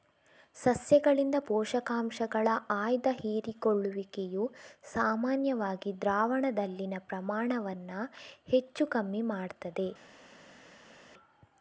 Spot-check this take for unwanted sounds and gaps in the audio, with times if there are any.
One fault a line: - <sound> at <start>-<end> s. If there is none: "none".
none